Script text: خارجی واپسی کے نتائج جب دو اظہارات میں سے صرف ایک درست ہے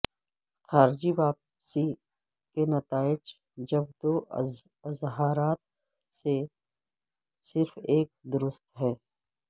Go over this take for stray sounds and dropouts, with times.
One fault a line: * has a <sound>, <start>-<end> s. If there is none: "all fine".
all fine